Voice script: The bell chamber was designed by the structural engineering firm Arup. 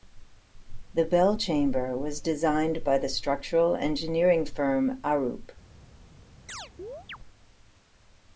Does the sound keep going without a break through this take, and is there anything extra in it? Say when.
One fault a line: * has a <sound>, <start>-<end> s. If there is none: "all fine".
* has a chirp, 6.5-7.2 s